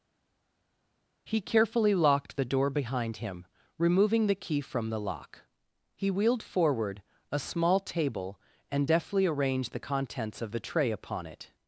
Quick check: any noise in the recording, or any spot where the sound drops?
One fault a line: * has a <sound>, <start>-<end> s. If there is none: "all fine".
all fine